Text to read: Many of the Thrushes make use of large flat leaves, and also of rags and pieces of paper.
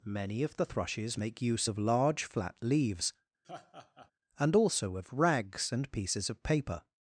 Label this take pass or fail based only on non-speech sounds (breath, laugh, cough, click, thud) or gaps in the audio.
fail